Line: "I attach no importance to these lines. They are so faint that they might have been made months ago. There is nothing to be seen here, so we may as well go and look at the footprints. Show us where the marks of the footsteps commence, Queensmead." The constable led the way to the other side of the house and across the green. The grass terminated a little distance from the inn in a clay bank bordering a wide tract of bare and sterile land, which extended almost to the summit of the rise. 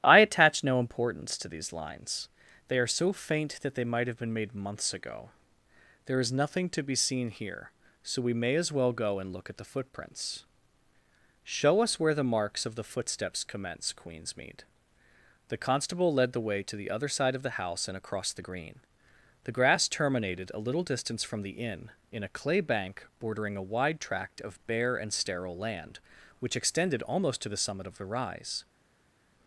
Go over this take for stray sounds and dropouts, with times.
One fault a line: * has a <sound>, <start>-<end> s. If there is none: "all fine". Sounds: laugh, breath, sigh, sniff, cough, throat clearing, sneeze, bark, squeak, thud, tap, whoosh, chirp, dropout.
all fine